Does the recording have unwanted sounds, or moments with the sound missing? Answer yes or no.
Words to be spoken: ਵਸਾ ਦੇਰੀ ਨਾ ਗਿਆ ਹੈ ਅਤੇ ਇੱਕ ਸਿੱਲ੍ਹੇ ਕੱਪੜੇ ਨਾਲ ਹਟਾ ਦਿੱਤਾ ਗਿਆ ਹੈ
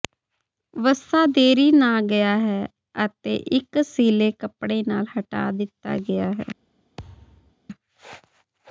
yes